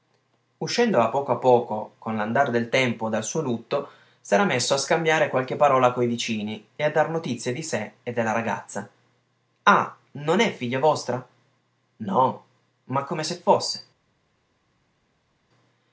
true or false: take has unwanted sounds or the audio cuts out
false